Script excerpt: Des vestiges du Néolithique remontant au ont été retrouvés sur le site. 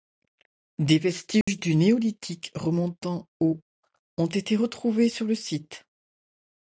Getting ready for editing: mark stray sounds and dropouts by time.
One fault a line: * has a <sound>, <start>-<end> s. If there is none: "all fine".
* has a dropout, 1.4-1.5 s